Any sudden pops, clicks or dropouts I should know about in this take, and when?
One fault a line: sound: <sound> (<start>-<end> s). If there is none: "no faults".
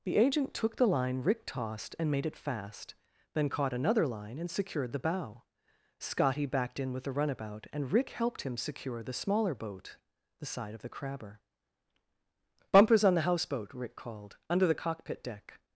no faults